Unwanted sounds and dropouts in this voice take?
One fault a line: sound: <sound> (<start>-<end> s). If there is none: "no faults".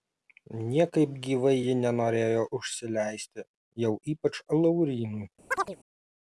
sound: chirp (5.5-5.8 s)